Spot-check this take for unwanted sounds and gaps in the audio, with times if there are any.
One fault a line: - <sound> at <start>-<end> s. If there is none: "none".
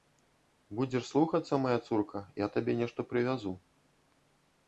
none